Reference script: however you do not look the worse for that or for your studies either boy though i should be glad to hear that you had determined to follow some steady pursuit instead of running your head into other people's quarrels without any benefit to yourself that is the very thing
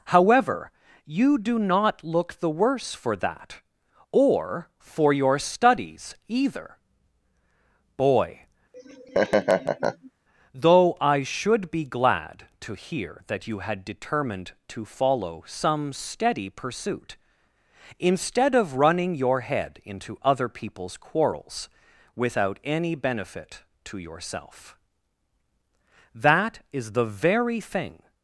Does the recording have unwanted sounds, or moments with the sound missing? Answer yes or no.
yes